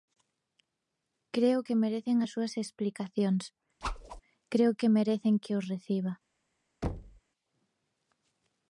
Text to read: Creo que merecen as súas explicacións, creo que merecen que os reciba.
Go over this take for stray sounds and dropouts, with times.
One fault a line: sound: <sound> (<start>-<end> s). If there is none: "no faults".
sound: whoosh (3.8-4.2 s)
sound: thud (6.8-7.2 s)